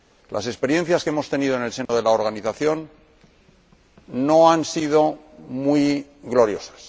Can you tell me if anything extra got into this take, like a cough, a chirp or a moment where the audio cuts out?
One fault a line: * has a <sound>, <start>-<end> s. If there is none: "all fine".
* has a dropout, 1.9-1.9 s